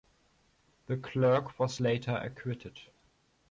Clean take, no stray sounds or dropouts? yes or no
yes